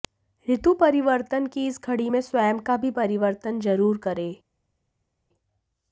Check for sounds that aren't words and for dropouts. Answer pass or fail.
pass